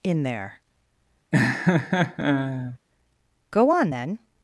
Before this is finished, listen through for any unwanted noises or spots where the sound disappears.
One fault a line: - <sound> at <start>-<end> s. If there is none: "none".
- laugh at 1.3-2.8 s